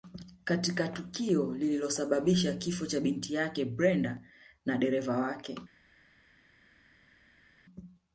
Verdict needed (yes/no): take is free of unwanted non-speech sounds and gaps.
yes